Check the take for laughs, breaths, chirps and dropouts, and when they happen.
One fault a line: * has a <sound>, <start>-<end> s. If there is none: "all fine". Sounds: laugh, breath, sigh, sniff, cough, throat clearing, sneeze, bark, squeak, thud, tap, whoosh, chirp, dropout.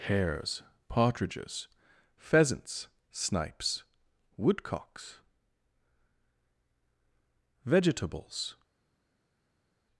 all fine